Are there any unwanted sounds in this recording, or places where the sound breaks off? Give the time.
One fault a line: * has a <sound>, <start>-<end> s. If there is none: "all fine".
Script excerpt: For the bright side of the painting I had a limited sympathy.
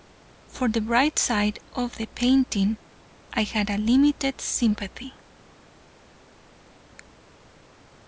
all fine